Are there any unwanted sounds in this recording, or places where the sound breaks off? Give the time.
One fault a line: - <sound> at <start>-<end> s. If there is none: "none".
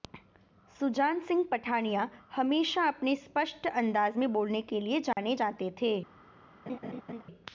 - dropout at 5.1-5.2 s
- laugh at 6.7-7.2 s